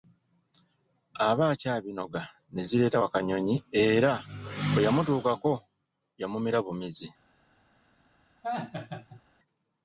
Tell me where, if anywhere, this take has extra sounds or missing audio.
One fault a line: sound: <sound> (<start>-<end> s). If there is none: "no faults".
sound: laugh (8.4-9.2 s)